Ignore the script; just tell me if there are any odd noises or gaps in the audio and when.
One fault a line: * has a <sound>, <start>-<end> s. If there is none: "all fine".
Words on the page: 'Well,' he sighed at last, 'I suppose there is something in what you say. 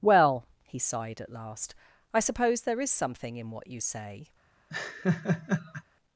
* has a laugh, 4.7-5.8 s